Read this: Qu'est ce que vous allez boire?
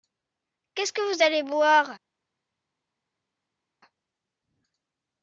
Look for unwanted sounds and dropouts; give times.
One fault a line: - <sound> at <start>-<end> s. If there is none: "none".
none